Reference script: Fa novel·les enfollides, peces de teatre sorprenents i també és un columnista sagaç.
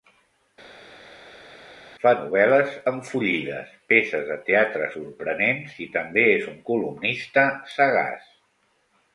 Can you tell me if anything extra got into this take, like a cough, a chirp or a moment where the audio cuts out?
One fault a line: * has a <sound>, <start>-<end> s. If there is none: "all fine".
all fine